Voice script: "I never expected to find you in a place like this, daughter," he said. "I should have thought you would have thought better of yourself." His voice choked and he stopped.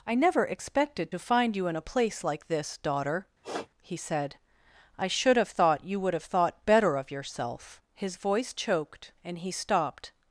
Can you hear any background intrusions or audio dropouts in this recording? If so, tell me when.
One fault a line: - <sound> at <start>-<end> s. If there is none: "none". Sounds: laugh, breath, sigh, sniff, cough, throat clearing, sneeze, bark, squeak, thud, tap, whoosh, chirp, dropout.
- sniff at 3.4-3.7 s